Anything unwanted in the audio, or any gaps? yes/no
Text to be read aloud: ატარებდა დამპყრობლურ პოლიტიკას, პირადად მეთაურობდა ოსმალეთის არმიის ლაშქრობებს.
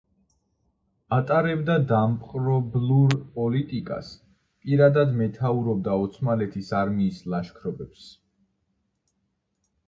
no